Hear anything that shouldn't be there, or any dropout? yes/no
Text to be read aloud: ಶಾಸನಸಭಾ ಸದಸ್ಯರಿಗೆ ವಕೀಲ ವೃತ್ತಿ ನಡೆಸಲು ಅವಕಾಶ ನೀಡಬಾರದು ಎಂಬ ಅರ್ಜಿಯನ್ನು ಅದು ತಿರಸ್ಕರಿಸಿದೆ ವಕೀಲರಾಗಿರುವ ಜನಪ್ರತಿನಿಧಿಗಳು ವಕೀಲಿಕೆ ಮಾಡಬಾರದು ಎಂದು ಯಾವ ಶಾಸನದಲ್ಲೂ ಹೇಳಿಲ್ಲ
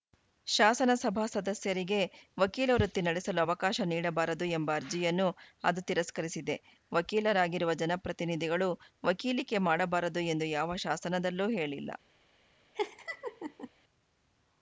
yes